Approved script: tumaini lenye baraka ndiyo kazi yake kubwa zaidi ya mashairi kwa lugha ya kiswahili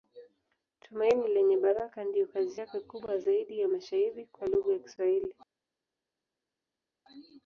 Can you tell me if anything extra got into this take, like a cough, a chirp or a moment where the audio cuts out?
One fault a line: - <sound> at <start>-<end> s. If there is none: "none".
none